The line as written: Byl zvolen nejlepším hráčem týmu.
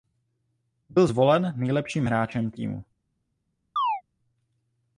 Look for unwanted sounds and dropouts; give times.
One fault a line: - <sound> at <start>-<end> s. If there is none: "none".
- chirp at 3.8-4.0 s